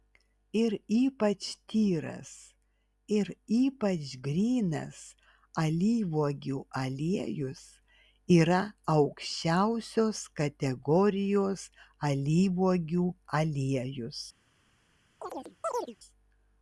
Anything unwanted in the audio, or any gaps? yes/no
yes